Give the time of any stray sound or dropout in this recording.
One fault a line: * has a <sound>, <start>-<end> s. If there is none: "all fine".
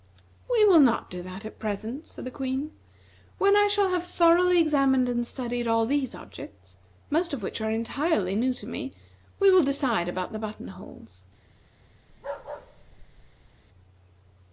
* has a bark, 12.1-13.5 s